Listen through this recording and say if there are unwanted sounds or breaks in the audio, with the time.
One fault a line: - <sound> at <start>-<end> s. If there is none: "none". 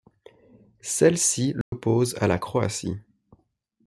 - dropout at 1.6-1.7 s